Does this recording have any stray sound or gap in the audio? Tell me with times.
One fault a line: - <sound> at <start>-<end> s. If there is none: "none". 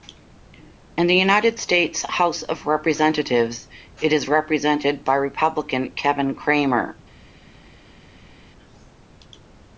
none